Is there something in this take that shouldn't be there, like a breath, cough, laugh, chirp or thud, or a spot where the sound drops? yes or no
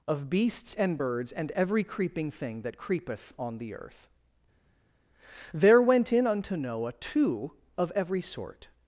no